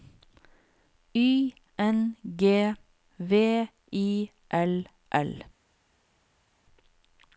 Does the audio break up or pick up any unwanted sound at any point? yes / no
no